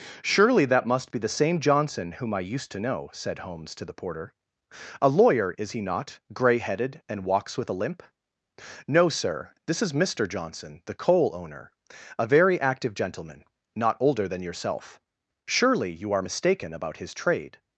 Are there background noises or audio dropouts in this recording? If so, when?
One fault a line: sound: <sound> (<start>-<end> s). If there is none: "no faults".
no faults